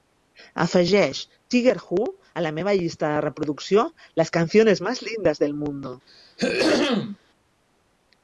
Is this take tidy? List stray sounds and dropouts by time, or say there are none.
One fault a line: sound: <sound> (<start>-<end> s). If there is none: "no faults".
sound: throat clearing (6.1-7.2 s)